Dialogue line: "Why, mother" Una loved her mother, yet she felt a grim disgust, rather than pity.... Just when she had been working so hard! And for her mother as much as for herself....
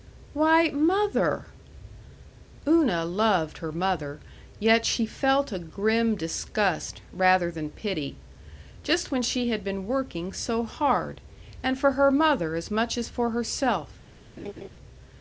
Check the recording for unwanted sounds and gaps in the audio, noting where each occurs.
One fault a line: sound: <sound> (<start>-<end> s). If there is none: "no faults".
sound: laugh (14.4-14.7 s)